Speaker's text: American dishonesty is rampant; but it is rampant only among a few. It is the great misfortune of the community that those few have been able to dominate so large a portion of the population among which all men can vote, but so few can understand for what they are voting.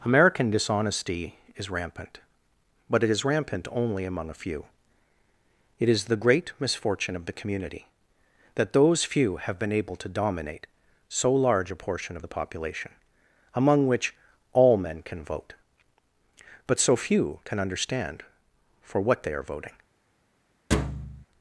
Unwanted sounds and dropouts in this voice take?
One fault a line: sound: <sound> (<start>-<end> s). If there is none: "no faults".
sound: thud (20.7-21.3 s)